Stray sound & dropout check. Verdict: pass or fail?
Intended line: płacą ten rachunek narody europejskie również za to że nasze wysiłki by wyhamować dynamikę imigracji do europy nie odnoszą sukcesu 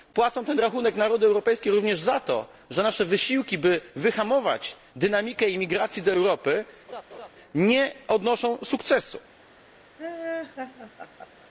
fail